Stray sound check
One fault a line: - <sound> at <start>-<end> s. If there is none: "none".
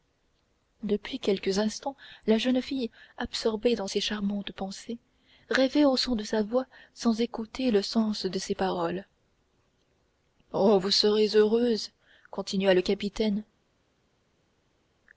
none